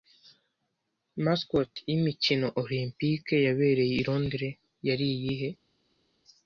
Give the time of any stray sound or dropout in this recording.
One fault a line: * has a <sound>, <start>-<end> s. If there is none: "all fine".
all fine